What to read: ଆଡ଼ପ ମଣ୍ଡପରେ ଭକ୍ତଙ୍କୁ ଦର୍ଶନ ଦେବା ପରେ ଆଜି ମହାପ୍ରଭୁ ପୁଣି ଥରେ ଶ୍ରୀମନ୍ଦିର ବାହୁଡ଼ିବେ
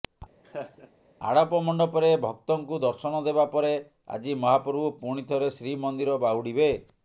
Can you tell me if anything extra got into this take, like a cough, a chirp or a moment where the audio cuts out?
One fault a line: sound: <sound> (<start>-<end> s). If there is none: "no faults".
sound: laugh (0.4-0.9 s)